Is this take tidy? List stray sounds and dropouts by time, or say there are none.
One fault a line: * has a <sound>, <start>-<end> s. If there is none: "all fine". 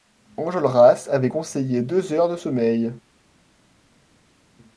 all fine